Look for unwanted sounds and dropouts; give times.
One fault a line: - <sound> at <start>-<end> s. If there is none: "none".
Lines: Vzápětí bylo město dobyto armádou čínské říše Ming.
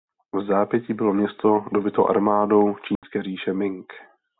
- dropout at 3.0-3.0 s